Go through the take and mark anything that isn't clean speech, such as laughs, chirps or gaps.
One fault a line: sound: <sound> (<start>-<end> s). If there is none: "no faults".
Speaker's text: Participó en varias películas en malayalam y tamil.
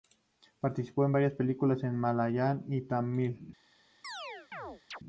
sound: chirp (4.0-5.0 s)